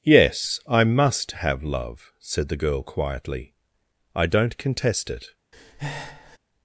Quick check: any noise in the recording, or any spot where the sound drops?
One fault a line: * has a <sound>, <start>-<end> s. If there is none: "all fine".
* has a breath, 5.5-6.4 s